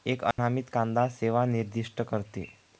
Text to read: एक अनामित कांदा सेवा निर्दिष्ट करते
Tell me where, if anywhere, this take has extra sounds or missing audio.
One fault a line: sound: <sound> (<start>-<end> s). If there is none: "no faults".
sound: dropout (0.3-0.4 s)